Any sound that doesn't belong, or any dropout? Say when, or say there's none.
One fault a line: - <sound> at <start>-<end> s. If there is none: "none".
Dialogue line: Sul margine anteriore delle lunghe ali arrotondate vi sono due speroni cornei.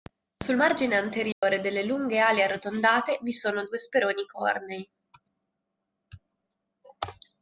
- dropout at 1.3-1.4 s